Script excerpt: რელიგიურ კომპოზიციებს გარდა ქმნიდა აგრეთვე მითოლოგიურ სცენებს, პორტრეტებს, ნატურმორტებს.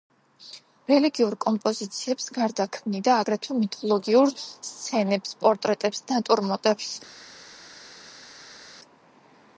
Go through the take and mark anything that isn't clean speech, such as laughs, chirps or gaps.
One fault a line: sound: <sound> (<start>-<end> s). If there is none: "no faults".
no faults